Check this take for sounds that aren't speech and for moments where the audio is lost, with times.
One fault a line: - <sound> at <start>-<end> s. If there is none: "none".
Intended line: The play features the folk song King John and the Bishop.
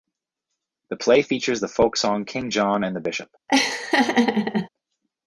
- laugh at 3.5-4.7 s